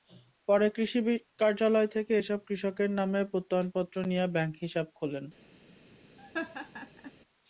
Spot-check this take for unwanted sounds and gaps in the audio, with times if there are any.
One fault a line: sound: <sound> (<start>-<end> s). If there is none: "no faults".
sound: laugh (6.2-7.1 s)